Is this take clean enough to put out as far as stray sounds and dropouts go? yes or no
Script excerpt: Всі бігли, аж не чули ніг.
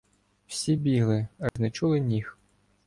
no